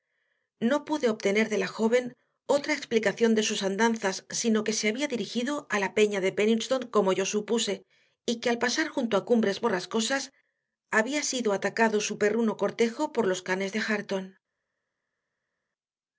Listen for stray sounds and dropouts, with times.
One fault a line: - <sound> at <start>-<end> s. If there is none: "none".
none